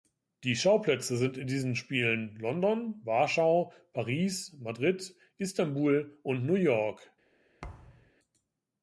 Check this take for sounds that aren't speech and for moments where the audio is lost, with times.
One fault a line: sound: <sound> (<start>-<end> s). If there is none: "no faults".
sound: thud (7.6-8.1 s)